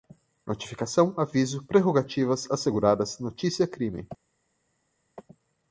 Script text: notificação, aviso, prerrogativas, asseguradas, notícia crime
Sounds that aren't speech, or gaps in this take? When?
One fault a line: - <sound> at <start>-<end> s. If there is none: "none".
none